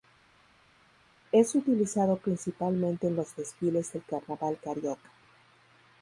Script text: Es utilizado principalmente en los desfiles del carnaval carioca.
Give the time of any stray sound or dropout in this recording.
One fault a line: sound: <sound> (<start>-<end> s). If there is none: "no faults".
no faults